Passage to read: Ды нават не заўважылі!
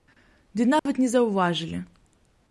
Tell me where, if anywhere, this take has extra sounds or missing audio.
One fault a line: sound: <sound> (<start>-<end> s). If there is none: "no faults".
sound: dropout (0.8-0.9 s)